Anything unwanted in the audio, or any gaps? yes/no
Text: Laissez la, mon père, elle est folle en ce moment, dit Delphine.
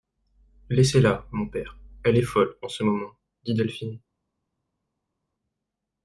no